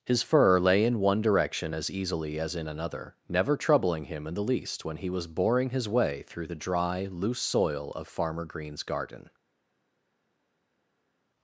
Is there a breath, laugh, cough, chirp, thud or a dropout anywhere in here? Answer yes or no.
no